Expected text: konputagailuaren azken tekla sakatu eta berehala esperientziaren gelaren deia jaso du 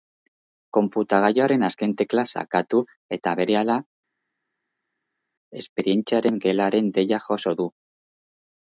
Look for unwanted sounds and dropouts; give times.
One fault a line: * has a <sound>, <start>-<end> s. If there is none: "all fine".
all fine